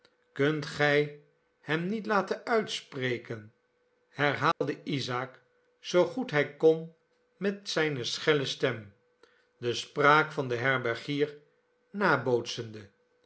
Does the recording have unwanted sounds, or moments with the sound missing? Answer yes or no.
yes